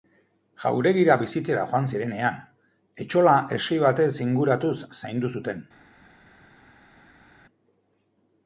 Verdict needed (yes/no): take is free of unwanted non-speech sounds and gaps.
yes